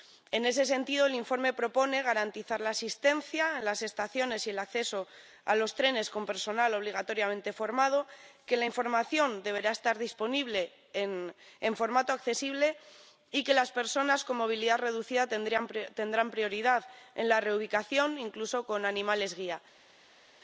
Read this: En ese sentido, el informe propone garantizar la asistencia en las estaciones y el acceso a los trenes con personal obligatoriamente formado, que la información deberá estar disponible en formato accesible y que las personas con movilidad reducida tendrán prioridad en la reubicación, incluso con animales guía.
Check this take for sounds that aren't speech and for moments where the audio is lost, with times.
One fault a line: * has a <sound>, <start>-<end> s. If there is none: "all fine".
all fine